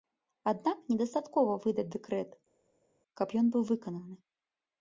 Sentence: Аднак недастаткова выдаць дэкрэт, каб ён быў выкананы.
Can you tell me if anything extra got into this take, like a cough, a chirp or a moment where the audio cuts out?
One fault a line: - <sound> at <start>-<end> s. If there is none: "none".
none